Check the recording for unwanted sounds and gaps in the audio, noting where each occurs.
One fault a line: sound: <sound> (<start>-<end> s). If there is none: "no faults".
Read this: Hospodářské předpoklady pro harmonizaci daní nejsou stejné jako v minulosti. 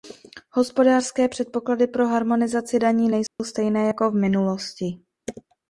sound: dropout (3.3-3.4 s)